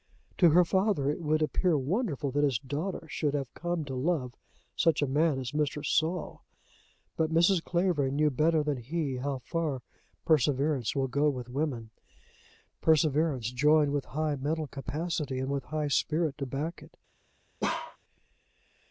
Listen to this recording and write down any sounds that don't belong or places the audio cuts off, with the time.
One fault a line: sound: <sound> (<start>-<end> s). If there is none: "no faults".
sound: bark (17.6-18.0 s)